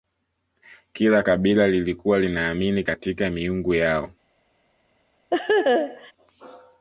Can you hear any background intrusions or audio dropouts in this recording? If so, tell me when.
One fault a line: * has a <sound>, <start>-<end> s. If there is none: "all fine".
* has a laugh, 5.3-6.1 s